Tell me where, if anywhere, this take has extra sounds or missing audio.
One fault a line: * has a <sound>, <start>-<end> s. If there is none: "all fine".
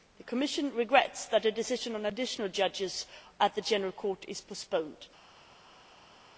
all fine